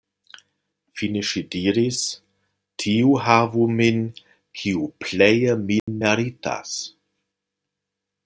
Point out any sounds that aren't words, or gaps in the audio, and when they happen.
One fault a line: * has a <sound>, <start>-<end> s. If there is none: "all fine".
* has a dropout, 5.8-5.9 s